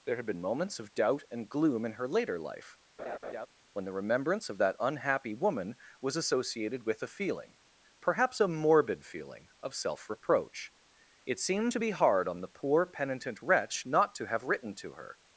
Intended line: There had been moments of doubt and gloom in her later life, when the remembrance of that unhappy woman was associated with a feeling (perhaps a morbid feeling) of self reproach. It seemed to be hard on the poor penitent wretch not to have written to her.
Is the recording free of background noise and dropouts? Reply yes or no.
no